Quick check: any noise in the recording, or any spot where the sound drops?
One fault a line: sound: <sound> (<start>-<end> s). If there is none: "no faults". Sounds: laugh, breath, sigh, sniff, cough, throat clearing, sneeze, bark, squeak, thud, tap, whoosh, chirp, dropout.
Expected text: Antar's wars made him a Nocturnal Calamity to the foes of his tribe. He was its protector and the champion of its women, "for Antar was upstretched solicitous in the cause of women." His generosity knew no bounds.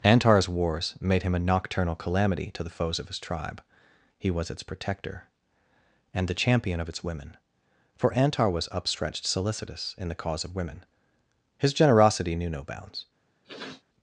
sound: sniff (13.4-13.8 s)